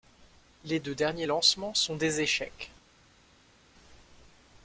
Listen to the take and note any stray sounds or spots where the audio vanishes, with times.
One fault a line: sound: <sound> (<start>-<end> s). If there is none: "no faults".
no faults